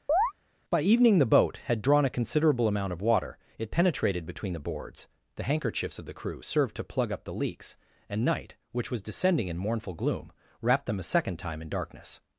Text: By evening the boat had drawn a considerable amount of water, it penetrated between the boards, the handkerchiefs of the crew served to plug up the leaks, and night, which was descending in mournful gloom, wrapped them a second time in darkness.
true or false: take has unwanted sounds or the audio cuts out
true